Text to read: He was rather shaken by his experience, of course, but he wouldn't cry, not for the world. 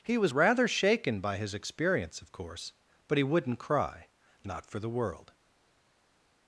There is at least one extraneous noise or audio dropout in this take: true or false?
false